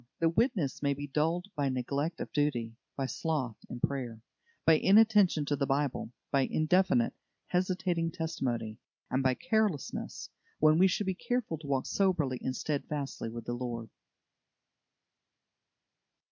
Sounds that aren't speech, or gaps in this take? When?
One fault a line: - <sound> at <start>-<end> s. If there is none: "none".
none